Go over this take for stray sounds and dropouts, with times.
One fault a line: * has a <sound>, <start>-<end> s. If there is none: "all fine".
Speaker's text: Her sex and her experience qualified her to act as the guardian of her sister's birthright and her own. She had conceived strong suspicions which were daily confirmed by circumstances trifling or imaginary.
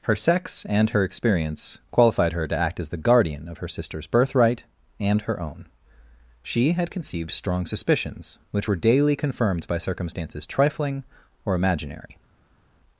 all fine